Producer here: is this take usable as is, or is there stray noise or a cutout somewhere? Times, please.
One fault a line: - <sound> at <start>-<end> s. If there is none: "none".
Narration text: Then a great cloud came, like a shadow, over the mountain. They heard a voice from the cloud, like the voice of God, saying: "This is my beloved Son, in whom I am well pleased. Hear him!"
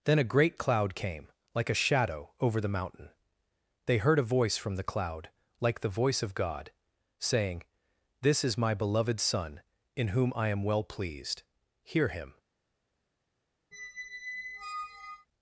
- squeak at 13.7-15.3 s